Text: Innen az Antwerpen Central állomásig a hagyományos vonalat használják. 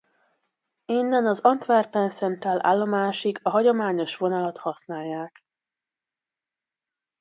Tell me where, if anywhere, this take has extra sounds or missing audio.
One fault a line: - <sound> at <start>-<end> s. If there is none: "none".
none